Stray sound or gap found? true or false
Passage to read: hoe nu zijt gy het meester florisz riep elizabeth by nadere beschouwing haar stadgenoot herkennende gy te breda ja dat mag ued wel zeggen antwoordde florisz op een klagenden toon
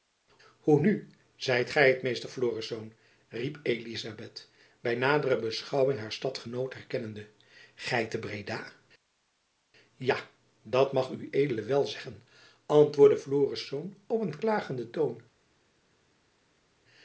false